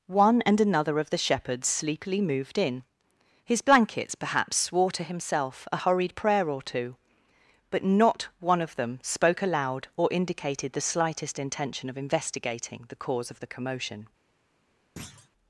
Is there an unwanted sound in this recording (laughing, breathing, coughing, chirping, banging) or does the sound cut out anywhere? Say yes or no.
yes